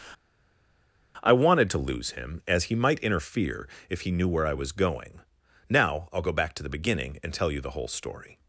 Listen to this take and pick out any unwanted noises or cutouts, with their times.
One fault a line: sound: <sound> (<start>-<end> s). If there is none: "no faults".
no faults